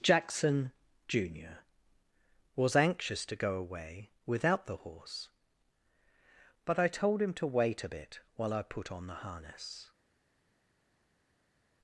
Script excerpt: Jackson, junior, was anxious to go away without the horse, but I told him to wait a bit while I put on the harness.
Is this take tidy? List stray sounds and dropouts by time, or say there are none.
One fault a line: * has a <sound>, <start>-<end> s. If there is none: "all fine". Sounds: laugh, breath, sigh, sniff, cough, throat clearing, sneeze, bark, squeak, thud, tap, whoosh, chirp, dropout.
all fine